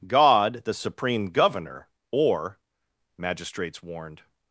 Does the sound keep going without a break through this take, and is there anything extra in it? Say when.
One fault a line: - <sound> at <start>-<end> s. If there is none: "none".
none